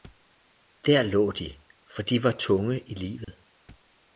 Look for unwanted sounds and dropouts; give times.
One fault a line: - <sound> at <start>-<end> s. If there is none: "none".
- dropout at 3.2-3.3 s